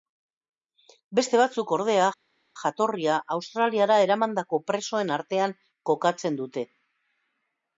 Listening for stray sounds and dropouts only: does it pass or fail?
pass